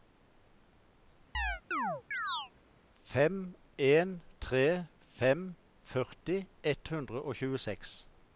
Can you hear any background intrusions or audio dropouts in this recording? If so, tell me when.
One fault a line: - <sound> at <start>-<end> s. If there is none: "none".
- chirp at 1.3-2.5 s